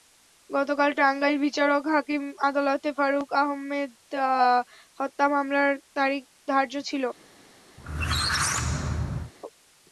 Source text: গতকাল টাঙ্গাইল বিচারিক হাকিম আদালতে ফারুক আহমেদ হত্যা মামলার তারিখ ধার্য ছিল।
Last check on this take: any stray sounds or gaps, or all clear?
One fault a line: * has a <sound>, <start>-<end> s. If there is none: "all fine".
* has a squeak, 7.8-9.3 s